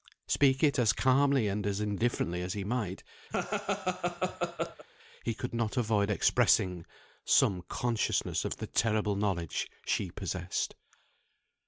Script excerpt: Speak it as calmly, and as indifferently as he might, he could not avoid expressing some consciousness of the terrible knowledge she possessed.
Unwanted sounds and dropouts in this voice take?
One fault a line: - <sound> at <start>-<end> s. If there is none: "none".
- laugh at 3.3-4.9 s